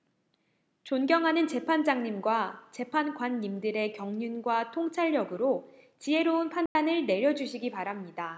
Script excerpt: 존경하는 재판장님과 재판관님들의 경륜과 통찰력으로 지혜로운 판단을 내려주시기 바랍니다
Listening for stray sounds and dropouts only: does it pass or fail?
fail